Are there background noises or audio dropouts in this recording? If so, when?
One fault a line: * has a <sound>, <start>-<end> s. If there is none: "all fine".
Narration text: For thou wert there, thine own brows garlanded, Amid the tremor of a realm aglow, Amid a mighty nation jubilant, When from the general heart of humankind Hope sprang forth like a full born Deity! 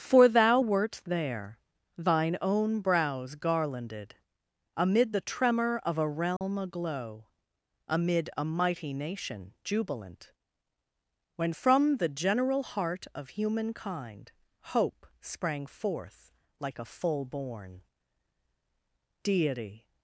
* has a dropout, 6.4-6.4 s